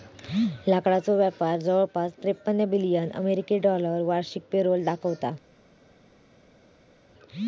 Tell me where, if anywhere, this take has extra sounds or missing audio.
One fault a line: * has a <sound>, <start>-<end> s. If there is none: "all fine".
all fine